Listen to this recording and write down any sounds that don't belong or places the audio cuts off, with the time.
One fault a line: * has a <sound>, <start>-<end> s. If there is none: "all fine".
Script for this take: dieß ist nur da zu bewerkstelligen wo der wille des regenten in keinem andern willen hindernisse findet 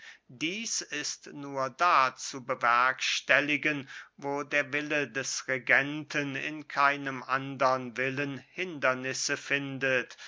all fine